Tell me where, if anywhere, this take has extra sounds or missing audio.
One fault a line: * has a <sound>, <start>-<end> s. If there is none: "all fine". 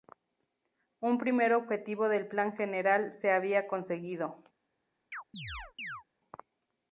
* has a chirp, 5.1-6.0 s